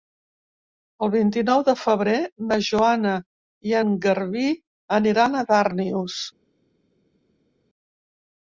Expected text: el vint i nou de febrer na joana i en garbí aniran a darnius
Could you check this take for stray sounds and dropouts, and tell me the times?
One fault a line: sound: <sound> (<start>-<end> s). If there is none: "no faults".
no faults